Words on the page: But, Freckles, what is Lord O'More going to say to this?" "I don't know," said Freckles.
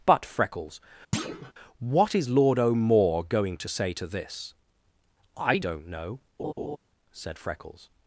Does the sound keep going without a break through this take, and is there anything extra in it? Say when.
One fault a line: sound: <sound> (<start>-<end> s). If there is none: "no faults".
sound: thud (1.1-1.5 s)
sound: laugh (6.4-6.8 s)